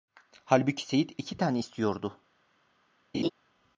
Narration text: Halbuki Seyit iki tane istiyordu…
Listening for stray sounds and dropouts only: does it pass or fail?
fail